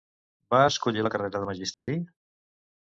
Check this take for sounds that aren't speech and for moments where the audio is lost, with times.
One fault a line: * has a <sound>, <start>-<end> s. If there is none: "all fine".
* has a dropout, 1.7-1.9 s